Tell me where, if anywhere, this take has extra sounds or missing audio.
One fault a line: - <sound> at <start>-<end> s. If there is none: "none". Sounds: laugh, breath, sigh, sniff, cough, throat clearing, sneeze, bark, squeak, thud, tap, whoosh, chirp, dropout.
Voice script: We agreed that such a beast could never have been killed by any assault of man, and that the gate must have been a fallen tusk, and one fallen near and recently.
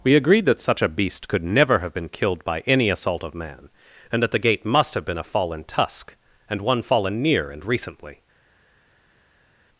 none